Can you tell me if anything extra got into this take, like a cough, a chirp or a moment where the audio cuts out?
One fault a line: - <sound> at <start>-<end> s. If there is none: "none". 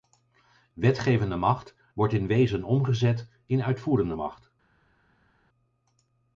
none